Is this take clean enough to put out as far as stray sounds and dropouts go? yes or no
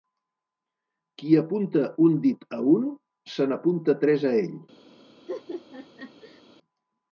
no